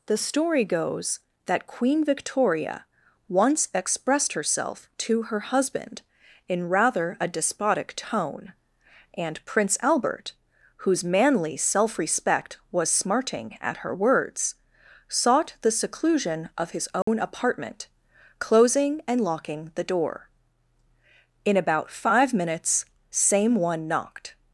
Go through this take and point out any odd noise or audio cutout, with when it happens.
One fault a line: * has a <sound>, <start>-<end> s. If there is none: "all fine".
* has a dropout, 17.0-17.1 s